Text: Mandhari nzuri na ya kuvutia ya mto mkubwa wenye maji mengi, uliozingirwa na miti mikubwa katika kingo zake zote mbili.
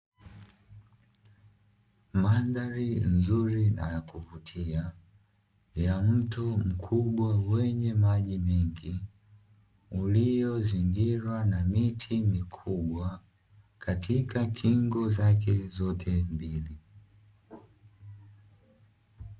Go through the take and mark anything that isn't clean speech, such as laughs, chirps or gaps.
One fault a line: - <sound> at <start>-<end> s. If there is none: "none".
none